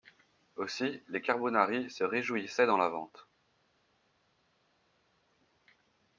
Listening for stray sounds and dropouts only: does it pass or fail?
pass